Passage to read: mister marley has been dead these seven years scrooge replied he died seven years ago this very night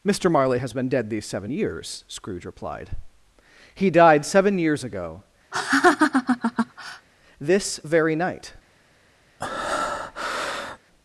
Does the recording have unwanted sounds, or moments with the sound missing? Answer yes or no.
yes